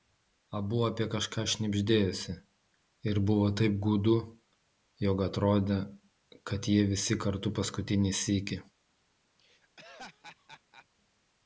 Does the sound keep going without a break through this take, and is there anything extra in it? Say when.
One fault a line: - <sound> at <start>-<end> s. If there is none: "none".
- laugh at 9.4-10.9 s